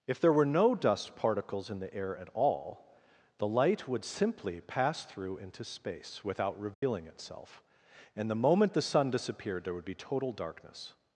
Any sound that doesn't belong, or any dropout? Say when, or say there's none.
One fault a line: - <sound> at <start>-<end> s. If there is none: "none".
- dropout at 6.7-6.8 s